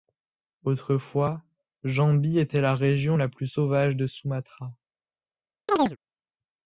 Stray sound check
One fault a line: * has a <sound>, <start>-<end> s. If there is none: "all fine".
* has a chirp, 5.7-6.0 s